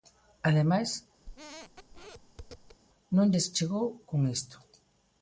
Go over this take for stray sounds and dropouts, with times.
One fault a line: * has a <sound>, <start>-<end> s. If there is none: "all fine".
* has a squeak, 1.2-2.8 s